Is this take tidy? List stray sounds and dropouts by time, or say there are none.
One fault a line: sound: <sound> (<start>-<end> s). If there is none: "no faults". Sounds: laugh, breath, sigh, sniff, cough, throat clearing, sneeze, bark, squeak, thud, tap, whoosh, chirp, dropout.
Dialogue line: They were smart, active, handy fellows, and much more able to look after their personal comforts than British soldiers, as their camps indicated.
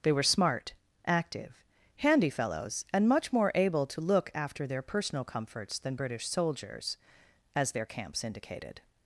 no faults